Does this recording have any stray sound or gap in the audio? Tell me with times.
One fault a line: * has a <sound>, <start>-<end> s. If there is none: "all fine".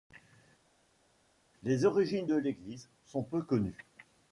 all fine